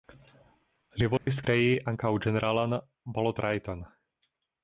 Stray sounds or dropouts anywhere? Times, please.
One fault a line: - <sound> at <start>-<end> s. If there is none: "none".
- dropout at 1.2-1.3 s